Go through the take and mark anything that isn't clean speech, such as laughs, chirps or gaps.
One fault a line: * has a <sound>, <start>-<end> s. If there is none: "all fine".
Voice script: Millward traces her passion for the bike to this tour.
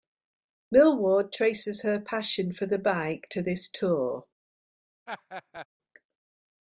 * has a laugh, 5.1-5.7 s